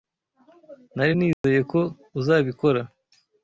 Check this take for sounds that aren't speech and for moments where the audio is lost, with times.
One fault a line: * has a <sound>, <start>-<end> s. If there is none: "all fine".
* has a dropout, 1.3-1.4 s